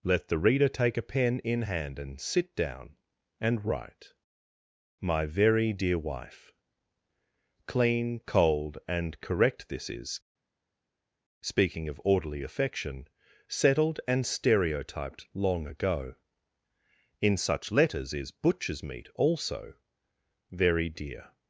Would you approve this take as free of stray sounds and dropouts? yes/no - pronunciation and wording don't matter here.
yes